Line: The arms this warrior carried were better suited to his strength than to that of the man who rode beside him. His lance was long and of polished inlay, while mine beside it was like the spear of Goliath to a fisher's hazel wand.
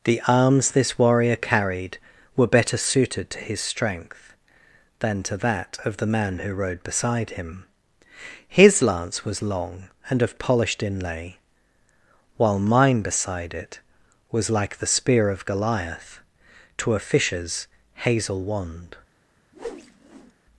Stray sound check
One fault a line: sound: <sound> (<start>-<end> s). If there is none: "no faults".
sound: whoosh (19.5-20.3 s)